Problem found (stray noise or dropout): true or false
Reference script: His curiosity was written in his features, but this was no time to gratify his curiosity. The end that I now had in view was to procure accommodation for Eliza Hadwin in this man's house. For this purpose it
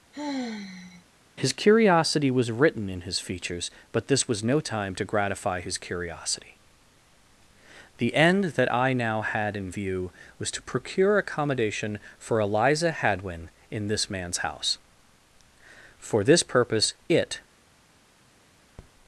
true